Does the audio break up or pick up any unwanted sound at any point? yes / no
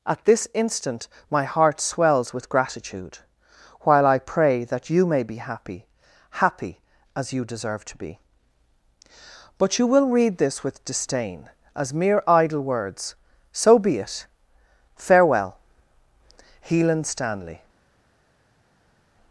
no